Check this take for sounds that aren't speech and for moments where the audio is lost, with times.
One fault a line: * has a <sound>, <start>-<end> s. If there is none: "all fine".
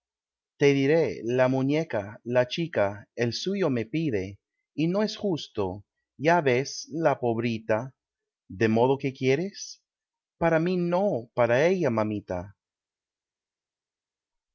all fine